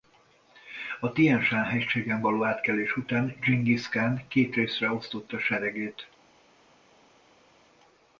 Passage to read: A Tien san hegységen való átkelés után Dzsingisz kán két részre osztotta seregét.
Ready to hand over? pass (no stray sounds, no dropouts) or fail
pass